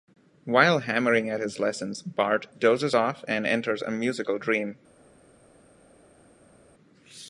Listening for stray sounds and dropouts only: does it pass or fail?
pass